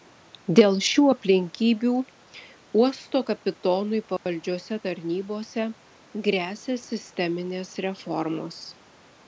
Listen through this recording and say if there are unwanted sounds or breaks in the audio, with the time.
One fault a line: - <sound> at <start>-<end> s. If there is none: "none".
- dropout at 4.2-4.3 s